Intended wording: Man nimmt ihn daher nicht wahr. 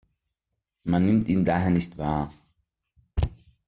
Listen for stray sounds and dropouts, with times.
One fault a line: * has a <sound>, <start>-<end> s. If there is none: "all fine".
all fine